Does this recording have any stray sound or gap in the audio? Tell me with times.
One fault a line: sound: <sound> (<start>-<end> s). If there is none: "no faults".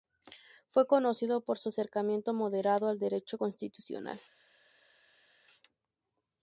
no faults